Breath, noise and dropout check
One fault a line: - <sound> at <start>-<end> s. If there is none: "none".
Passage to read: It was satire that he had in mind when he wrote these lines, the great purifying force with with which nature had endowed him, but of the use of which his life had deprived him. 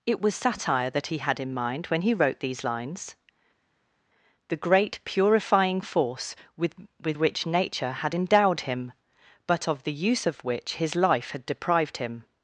none